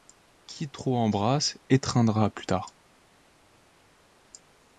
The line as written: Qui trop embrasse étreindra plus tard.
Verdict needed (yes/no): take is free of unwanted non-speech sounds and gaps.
yes